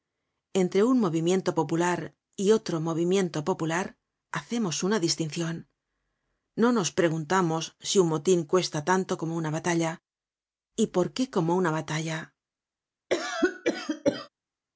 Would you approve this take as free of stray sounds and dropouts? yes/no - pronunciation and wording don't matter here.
no